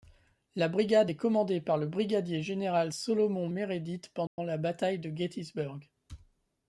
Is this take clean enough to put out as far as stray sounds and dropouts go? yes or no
no